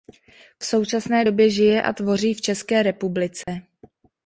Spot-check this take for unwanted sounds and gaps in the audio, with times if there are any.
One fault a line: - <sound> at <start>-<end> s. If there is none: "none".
- dropout at 3.4-3.5 s